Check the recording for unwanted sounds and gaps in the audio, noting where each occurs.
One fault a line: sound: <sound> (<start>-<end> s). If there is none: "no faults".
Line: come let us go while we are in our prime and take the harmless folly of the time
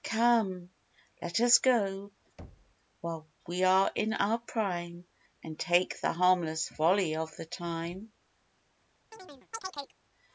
sound: thud (2.4-2.8 s)
sound: chirp (9.1-10.0 s)